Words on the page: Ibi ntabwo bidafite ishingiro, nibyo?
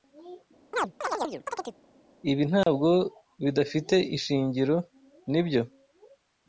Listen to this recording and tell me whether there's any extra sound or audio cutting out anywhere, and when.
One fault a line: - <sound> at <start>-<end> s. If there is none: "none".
- chirp at 0.7-1.8 s
- dropout at 2.6-2.7 s